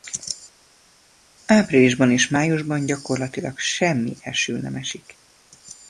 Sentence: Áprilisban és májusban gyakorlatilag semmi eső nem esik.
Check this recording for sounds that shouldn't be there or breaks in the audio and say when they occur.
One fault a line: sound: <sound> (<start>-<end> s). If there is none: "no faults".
no faults